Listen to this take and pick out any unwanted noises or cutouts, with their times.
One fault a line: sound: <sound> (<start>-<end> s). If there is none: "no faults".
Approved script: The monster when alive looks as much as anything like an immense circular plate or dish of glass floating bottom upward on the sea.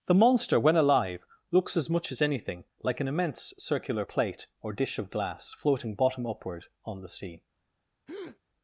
sound: breath (8.1-8.4 s)